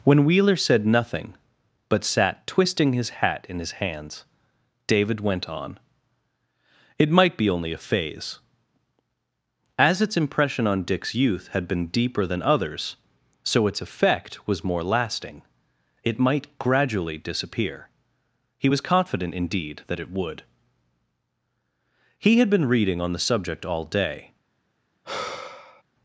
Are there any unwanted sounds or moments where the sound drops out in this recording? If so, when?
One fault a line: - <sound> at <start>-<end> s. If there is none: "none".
- sigh at 25.0-25.8 s